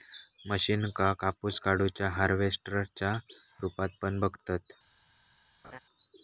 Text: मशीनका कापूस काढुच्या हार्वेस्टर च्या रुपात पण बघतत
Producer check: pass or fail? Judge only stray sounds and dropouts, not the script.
fail